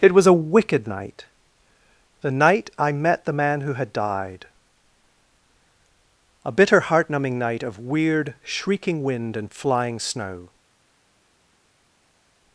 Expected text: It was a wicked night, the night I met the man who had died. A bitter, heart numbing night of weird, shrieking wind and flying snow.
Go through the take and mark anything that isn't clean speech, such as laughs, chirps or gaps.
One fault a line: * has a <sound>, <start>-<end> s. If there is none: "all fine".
all fine